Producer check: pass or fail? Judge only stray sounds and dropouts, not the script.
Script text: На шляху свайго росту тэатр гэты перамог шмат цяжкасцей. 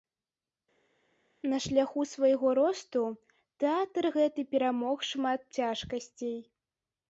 pass